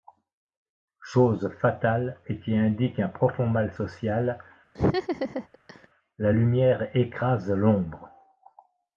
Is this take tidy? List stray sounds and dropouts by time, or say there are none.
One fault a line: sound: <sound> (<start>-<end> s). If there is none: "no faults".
sound: laugh (4.7-5.9 s)